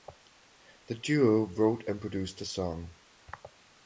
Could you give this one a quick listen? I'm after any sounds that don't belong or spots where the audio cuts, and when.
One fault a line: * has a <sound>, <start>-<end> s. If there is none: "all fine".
all fine